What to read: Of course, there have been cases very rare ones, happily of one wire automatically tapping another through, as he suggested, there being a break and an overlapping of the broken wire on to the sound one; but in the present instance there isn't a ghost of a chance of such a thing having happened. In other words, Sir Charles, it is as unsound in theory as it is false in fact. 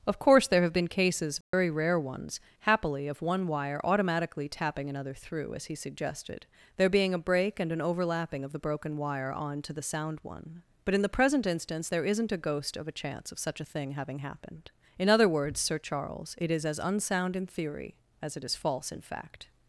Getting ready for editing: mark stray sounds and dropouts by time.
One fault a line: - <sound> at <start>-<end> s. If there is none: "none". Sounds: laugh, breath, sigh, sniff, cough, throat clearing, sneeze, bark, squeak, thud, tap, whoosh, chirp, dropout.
- dropout at 1.4-1.5 s